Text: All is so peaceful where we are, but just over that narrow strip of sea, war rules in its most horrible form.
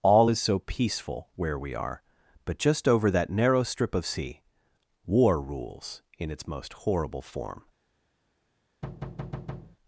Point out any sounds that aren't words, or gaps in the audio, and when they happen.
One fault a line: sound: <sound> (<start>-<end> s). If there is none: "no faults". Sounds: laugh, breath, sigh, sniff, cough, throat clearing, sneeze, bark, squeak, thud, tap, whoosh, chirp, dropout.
sound: thud (8.8-9.8 s)